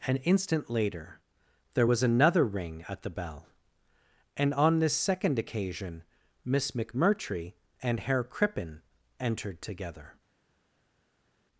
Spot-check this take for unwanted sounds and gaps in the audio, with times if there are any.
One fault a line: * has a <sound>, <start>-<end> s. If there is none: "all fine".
all fine